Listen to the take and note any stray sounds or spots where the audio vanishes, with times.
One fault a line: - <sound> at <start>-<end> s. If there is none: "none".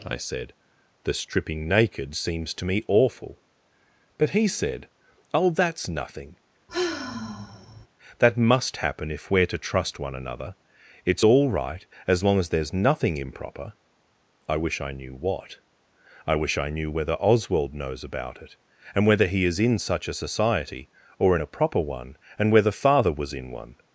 - sigh at 6.7-7.9 s